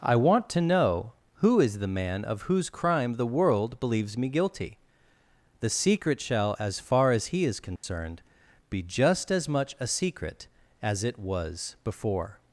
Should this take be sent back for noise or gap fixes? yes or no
yes